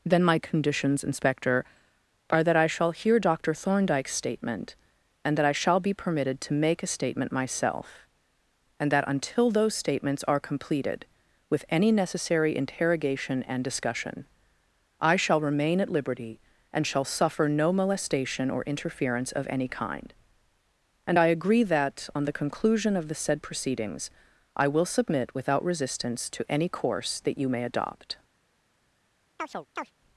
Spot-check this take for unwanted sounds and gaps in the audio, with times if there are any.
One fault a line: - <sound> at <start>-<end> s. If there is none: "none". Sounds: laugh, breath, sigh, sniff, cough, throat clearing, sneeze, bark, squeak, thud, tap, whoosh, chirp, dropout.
- chirp at 29.4-29.9 s